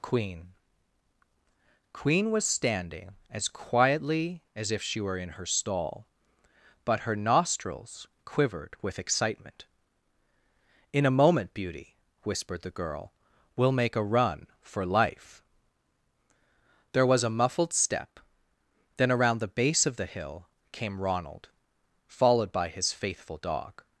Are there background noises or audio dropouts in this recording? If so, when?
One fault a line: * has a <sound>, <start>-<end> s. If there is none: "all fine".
all fine